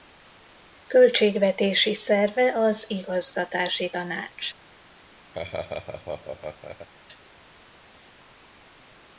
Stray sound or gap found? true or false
true